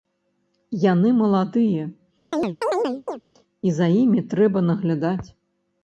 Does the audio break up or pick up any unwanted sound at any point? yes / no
yes